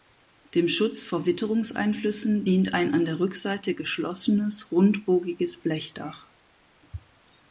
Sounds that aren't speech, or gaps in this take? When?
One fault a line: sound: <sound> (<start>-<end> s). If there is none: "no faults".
no faults